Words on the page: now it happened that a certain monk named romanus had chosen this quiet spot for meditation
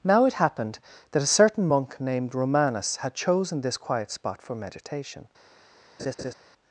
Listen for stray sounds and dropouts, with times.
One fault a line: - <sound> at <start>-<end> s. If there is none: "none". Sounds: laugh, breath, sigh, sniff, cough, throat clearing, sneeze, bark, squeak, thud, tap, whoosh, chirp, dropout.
- laugh at 6.0-6.3 s